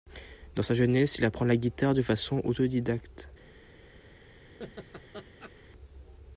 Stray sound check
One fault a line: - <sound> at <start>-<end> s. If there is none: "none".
- laugh at 4.6-5.5 s